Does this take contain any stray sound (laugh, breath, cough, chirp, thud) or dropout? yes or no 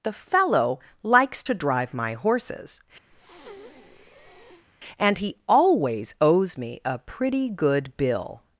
yes